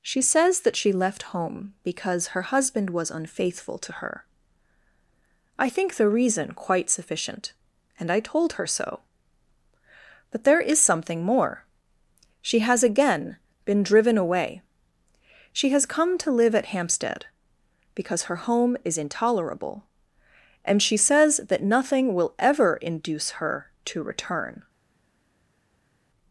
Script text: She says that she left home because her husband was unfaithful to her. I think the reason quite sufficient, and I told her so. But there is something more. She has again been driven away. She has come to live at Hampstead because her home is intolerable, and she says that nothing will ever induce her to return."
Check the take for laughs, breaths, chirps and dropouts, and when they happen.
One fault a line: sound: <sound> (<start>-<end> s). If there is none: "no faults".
no faults